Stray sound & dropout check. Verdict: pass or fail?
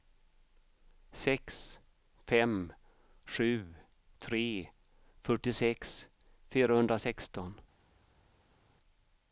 pass